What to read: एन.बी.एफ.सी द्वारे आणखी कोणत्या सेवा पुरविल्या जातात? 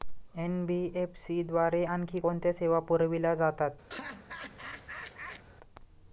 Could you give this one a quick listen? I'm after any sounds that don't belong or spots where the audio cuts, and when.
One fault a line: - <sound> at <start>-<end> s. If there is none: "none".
- laugh at 3.9-5.4 s